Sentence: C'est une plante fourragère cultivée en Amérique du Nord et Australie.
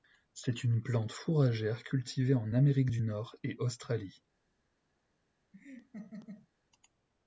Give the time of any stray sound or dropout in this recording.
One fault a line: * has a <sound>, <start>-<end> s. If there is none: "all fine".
* has a laugh, 5.5-6.5 s